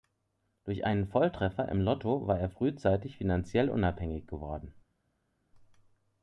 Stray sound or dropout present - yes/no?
no